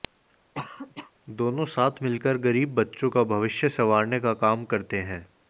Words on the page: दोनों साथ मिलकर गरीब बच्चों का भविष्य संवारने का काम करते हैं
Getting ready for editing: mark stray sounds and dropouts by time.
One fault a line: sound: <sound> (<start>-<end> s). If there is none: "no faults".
sound: cough (0.5-1.1 s)